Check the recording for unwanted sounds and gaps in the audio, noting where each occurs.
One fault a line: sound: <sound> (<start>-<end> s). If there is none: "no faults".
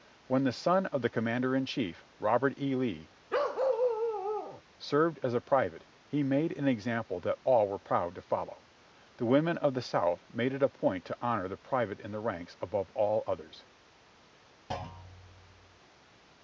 sound: bark (3.3-4.6 s)
sound: thud (14.7-15.8 s)